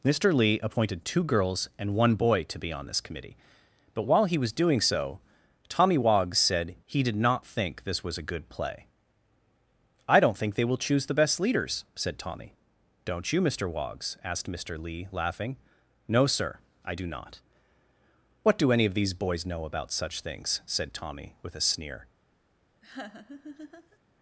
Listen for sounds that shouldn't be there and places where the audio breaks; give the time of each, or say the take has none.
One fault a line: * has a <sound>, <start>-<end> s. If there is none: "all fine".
* has a laugh, 22.8-24.0 s